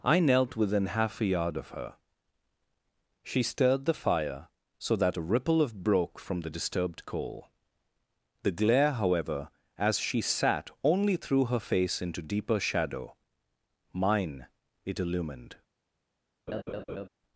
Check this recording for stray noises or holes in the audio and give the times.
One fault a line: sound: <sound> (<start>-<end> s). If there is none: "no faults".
sound: laugh (16.5-17.1 s)